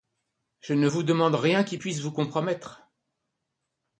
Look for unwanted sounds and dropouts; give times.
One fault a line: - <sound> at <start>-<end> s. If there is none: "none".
none